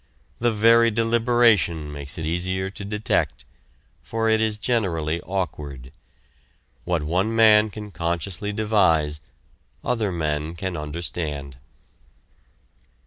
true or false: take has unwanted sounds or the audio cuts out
false